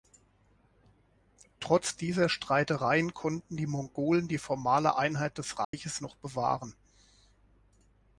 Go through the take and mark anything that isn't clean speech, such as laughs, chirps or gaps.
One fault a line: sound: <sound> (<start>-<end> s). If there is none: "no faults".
sound: dropout (5.6-5.7 s)